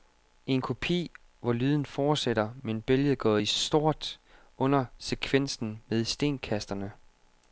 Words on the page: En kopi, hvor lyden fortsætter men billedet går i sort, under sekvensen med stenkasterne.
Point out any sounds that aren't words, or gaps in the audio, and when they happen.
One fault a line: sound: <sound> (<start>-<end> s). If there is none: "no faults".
no faults